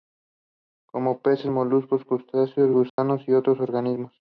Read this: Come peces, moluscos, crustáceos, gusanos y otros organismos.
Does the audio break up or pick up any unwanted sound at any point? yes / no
yes